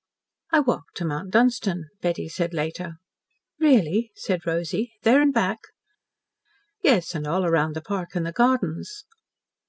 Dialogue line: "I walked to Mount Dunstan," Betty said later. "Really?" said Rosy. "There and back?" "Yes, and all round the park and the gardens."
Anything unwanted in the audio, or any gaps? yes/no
no